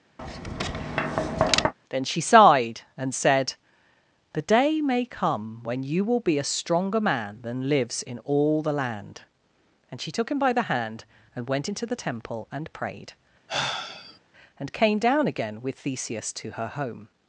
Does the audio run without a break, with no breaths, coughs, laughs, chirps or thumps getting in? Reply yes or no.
no